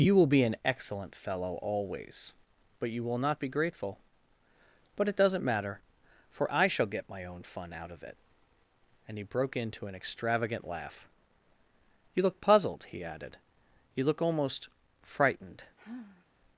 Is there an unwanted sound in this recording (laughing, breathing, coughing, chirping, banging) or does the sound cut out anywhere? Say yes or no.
yes